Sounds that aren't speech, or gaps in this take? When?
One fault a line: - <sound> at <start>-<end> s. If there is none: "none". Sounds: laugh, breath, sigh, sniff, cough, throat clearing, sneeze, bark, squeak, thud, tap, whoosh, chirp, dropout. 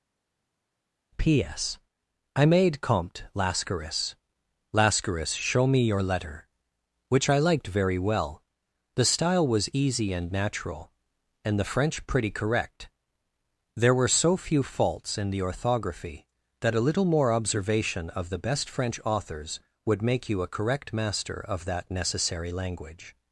none